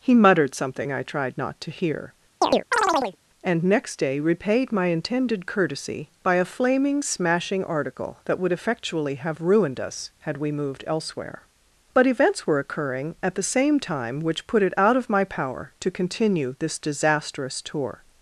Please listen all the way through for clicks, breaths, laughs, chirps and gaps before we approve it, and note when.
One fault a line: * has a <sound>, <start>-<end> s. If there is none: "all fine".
* has a chirp, 2.4-3.2 s